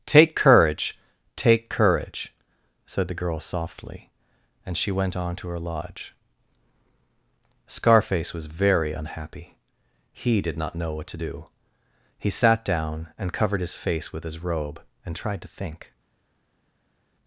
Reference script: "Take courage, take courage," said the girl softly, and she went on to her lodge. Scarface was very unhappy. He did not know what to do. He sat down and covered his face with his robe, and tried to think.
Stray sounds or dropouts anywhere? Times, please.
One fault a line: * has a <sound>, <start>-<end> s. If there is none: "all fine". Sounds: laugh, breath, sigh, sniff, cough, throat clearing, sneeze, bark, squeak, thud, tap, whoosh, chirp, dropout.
all fine